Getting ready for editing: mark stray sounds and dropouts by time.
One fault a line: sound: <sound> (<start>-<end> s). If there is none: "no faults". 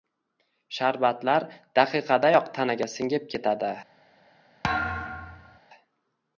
sound: thud (4.6-5.6 s)